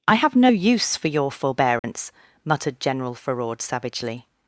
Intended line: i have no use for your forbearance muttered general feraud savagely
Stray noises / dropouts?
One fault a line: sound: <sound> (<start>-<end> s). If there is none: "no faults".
sound: dropout (1.8-1.8 s)